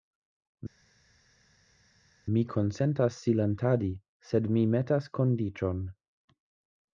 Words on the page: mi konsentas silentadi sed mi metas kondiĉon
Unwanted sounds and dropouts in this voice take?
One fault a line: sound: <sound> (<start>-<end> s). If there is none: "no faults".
no faults